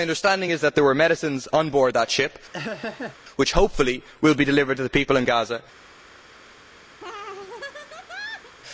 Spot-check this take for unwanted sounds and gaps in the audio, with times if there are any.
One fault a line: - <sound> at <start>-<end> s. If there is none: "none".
- laugh at 2.5-3.2 s
- laugh at 7.0-8.5 s